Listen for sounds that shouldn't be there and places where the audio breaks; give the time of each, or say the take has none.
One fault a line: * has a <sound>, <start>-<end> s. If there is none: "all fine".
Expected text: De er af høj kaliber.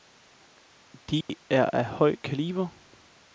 * has a dropout, 1.2-1.3 s